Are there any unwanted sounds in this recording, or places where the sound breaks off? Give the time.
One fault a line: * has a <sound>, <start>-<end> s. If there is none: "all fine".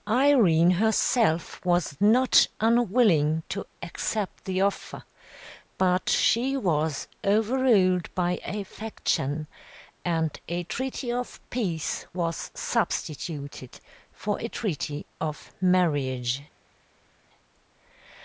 all fine